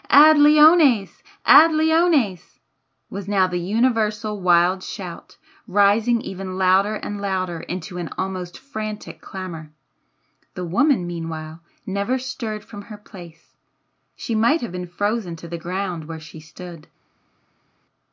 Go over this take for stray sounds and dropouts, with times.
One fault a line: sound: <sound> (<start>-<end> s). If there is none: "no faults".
no faults